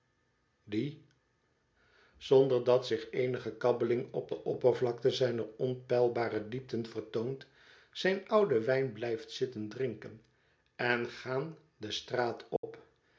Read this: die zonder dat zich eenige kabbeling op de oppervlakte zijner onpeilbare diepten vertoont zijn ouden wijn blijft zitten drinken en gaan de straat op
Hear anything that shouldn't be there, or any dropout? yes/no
yes